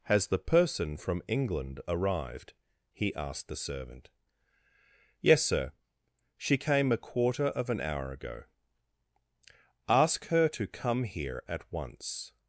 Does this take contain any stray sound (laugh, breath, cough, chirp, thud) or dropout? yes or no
no